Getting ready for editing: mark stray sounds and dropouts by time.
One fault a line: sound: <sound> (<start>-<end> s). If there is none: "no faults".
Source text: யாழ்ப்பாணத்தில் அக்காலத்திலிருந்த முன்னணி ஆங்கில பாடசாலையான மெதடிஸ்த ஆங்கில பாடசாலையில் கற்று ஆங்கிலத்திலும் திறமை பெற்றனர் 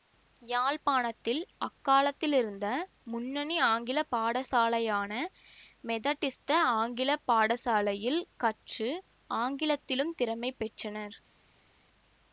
no faults